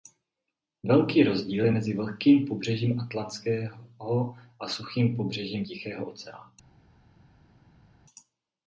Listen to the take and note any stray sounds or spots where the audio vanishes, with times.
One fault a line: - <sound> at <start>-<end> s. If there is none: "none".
none